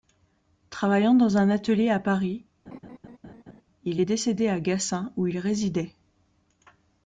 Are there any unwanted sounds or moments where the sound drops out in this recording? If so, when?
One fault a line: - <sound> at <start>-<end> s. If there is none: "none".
- laugh at 2.7-3.6 s